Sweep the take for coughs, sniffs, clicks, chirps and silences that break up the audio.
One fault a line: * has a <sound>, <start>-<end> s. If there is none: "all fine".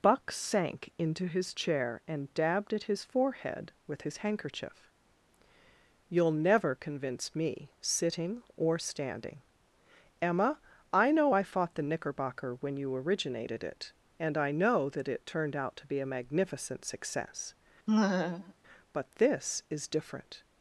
* has a laugh, 17.9-18.5 s